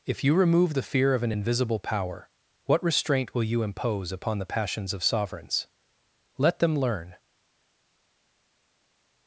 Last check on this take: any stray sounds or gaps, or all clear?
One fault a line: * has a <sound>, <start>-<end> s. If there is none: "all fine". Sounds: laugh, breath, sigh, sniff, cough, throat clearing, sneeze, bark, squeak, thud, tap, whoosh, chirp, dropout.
all fine